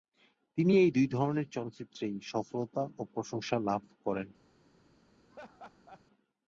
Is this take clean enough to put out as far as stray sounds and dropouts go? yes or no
no